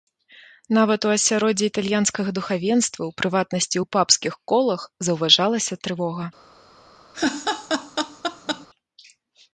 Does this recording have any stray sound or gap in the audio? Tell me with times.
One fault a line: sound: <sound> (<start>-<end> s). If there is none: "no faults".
sound: laugh (7.1-8.7 s)